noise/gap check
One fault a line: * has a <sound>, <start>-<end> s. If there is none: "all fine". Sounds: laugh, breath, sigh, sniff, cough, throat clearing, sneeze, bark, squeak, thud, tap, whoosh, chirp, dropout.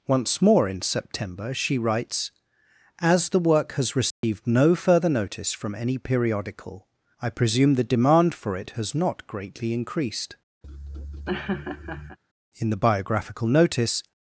* has a dropout, 4.1-4.2 s
* has a laugh, 10.6-12.2 s